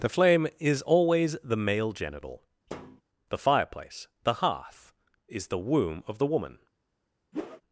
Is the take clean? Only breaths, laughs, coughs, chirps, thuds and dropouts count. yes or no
no